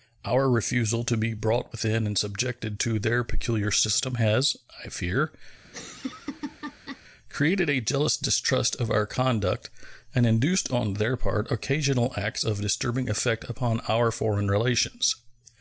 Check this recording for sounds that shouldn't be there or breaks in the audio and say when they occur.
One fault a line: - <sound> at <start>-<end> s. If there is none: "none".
- laugh at 5.6-7.0 s